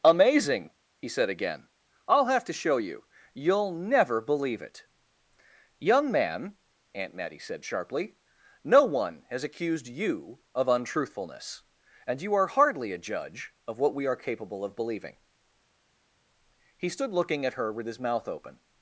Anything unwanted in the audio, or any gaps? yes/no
no